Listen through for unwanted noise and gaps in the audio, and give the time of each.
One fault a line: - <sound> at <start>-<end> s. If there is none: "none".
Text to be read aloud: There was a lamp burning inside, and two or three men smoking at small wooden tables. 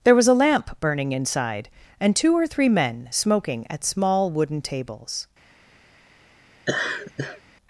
- laugh at 6.7-7.4 s